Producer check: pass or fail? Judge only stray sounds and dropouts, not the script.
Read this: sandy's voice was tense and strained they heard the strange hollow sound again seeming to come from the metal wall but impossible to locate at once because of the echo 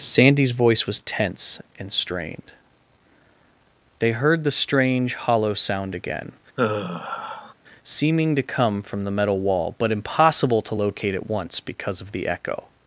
fail